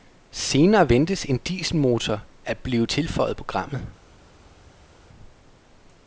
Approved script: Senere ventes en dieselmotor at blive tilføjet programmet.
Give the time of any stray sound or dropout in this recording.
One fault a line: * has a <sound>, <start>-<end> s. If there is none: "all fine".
all fine